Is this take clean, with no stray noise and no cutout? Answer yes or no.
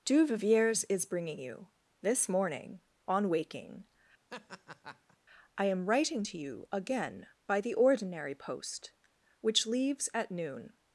no